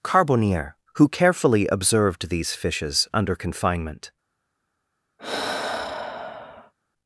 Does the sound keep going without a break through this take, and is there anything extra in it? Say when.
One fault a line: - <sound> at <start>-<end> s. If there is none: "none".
- sigh at 5.2-6.7 s